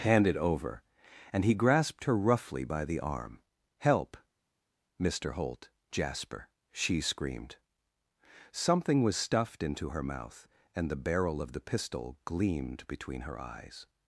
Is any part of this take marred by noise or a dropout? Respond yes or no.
no